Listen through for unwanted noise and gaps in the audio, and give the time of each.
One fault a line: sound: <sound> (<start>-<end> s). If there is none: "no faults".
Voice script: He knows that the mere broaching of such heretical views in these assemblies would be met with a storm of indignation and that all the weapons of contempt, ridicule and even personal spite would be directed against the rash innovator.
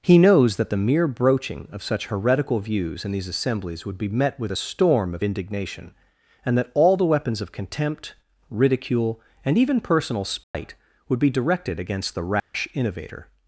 sound: dropout (10.4-10.5 s)
sound: dropout (12.4-12.5 s)